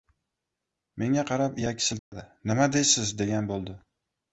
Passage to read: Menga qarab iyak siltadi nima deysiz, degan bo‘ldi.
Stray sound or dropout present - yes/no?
yes